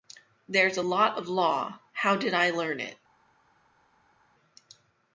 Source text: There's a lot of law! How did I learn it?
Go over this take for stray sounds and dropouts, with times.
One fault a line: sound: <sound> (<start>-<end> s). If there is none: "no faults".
no faults